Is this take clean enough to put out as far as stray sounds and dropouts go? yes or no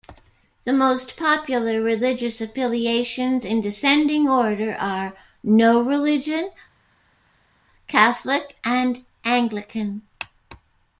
yes